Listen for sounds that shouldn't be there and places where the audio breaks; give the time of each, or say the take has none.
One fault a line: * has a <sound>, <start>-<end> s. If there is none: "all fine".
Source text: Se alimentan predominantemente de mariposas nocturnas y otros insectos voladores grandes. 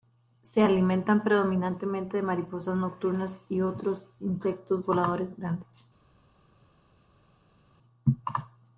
all fine